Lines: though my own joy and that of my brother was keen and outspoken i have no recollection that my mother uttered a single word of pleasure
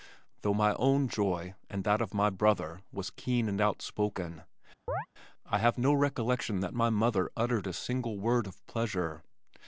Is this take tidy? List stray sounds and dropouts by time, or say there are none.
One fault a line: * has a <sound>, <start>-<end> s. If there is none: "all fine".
* has a chirp, 4.9-5.1 s